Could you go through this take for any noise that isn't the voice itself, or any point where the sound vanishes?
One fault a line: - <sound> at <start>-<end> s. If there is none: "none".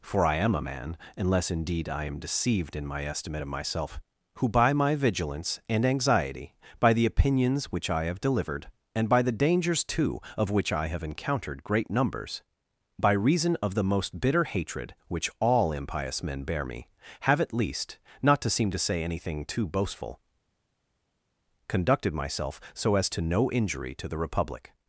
none